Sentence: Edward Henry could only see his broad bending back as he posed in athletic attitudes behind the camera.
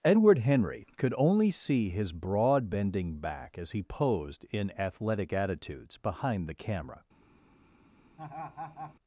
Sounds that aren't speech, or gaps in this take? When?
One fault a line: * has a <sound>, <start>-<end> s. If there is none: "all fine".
* has a laugh, 8.2-9.0 s